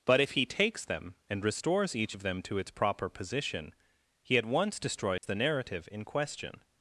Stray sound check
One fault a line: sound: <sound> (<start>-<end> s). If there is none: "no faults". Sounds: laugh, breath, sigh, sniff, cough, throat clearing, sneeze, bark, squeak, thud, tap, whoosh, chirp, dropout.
sound: dropout (5.2-5.2 s)